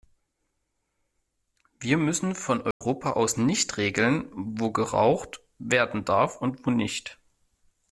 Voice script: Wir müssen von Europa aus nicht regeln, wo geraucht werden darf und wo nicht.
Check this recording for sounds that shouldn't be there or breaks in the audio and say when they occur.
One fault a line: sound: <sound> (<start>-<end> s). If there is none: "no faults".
sound: dropout (2.7-2.8 s)